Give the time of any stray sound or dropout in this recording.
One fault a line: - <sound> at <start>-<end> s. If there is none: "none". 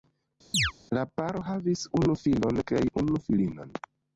- chirp at 0.5-0.7 s